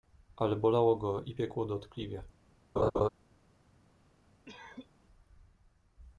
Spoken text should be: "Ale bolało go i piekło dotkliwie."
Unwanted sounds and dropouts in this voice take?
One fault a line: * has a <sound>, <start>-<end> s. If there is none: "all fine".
* has a laugh, 2.8-3.1 s
* has a cough, 4.5-4.9 s